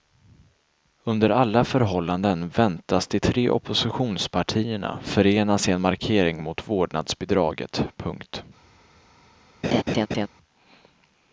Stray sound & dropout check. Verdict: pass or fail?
fail